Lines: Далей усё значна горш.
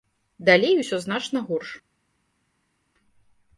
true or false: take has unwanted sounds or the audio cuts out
false